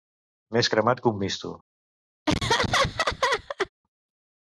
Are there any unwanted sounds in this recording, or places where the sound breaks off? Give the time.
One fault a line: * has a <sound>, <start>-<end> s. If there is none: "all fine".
* has a laugh, 2.3-3.7 s